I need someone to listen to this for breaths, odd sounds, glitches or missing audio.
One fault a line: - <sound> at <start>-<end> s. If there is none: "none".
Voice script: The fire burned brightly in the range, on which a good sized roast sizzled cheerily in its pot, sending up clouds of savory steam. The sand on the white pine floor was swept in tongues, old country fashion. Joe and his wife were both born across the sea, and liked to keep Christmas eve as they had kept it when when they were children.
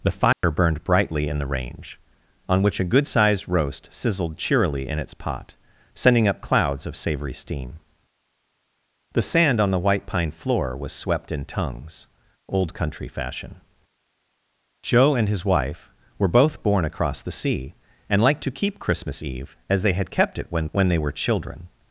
- dropout at 0.3-0.4 s